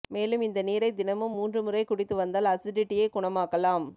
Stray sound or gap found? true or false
false